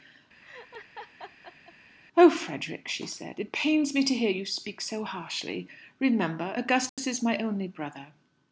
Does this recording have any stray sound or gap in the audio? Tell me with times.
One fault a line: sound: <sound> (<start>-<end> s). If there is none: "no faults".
sound: laugh (0.4-1.7 s)
sound: dropout (6.9-7.0 s)